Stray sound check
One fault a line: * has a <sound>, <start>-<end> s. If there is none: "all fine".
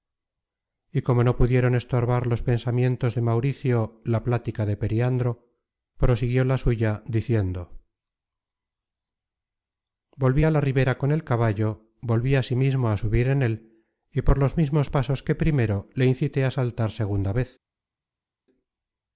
all fine